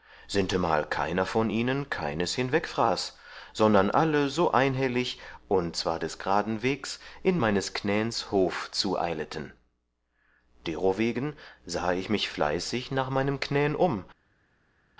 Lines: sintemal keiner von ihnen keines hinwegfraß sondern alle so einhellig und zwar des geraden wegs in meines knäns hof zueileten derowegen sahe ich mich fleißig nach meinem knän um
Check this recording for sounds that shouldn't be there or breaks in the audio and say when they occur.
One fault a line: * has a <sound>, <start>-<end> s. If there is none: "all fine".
all fine